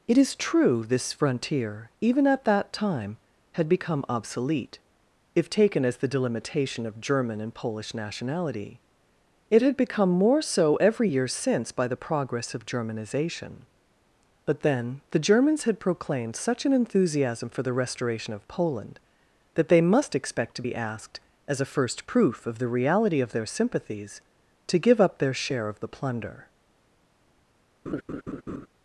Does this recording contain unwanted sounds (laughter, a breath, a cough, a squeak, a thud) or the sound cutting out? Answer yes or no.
yes